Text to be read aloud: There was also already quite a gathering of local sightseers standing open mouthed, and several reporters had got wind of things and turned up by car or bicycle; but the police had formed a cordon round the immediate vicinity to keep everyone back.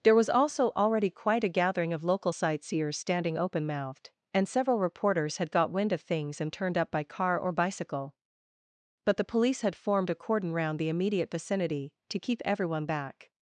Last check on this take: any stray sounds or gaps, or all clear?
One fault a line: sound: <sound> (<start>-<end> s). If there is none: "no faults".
no faults